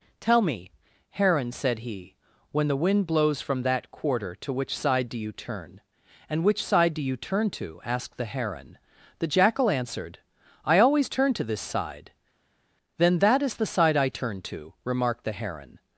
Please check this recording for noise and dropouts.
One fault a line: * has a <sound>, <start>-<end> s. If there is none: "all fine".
all fine